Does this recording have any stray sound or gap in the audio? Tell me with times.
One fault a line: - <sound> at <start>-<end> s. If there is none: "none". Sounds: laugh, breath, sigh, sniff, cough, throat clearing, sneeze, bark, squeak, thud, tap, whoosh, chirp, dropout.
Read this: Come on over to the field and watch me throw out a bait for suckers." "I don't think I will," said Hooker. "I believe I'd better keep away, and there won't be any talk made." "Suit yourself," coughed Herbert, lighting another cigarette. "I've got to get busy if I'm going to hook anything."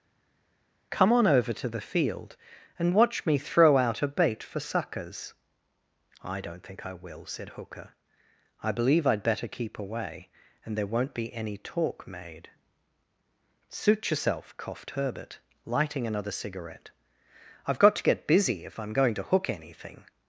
none